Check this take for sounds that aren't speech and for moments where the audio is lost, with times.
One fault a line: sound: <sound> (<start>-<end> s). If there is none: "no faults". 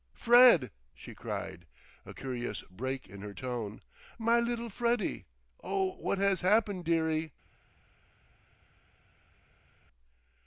no faults